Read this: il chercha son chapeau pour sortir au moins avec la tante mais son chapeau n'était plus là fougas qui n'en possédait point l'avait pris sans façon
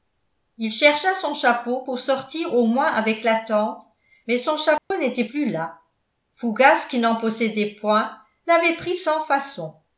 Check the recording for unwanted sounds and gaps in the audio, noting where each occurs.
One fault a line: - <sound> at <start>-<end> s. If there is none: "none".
- dropout at 4.8-4.9 s